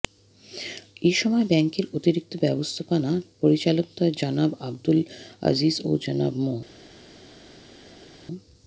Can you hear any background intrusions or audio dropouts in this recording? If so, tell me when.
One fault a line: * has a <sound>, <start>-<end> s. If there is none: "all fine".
all fine